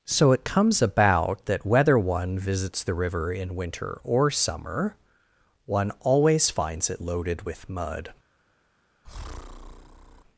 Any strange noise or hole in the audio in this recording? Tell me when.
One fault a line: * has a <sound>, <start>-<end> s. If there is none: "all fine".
* has a breath, 9.0-10.2 s